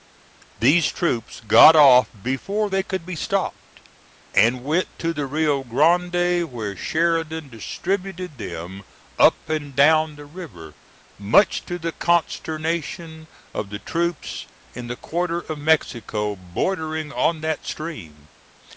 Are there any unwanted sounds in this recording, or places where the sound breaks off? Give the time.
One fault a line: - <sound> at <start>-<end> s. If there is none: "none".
none